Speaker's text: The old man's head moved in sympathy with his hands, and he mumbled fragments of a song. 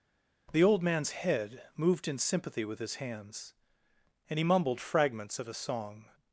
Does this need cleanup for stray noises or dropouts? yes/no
no